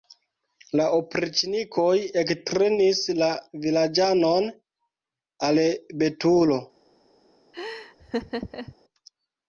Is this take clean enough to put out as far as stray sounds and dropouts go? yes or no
no